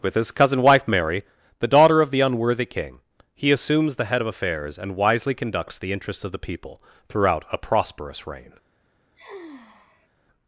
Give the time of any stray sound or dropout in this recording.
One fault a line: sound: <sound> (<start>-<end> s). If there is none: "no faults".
sound: sigh (9.1-10.1 s)